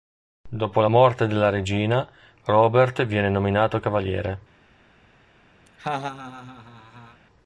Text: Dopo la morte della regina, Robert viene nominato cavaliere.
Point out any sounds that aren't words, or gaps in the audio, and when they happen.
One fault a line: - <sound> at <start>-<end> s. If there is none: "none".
- laugh at 5.7-7.2 s